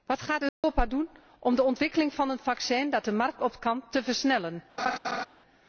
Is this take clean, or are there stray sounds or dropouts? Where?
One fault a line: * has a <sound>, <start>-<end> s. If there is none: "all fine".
* has a dropout, 0.5-0.6 s
* has a laugh, 4.8-5.3 s